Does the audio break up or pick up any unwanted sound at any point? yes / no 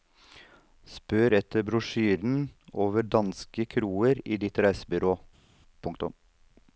no